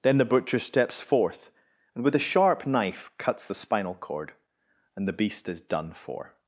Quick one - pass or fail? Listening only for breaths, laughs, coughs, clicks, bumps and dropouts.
pass